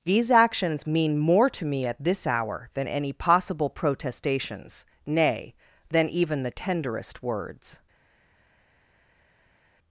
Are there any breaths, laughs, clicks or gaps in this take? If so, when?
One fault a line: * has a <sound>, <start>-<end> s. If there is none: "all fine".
all fine